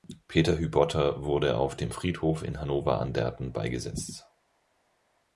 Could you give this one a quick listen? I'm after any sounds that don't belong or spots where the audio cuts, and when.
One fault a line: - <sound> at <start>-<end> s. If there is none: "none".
none